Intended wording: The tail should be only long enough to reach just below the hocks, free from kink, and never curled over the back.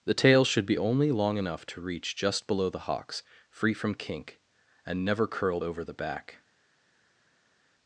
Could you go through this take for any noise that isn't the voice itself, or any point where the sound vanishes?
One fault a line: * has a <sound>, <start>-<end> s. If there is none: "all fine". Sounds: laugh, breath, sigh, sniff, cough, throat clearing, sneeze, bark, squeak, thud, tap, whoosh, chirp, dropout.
all fine